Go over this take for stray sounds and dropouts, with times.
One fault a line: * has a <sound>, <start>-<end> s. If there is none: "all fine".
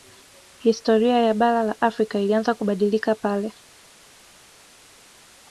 all fine